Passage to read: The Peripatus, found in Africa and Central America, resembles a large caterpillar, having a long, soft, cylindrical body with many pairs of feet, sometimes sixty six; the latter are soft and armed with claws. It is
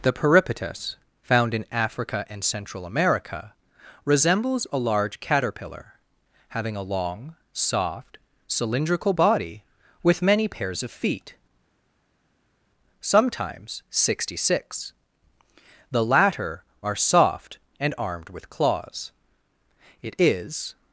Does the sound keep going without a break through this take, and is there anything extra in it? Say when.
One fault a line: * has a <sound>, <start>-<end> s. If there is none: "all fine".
all fine